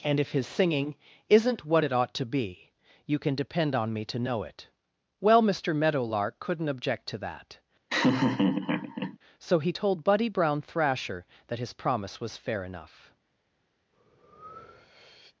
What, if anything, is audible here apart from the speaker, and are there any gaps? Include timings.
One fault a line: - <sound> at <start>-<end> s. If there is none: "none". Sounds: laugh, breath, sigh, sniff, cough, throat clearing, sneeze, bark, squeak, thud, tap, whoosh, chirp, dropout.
- laugh at 7.9-9.2 s
- breath at 13.9-15.4 s